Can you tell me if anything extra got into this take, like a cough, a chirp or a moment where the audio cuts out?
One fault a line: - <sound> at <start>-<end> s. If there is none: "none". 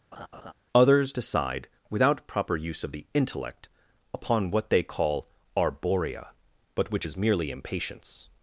- laugh at 0.1-0.5 s